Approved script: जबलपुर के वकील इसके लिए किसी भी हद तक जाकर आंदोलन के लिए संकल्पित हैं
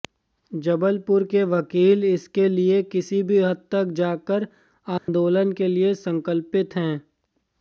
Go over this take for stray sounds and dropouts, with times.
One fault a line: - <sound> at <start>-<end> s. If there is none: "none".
- dropout at 5.0-5.1 s